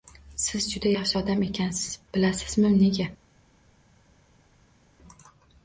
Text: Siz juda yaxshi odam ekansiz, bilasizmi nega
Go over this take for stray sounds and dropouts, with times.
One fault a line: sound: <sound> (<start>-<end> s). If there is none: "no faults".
no faults